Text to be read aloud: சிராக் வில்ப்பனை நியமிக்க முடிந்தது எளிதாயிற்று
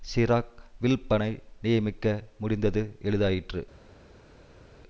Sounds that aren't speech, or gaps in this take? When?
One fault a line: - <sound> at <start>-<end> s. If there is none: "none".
none